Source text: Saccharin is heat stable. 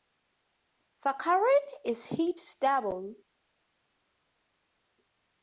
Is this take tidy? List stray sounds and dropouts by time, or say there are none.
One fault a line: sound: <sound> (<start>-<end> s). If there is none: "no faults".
no faults